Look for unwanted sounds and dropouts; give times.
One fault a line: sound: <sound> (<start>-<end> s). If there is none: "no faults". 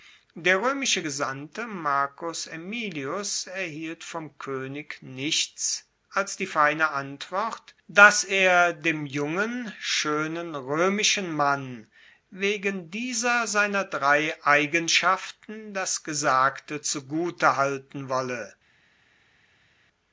no faults